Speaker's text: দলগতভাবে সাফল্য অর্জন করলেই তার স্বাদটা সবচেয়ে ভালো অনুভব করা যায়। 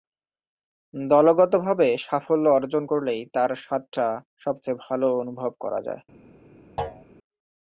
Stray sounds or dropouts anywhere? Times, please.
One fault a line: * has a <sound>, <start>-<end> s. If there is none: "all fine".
* has a thud, 6.8-7.0 s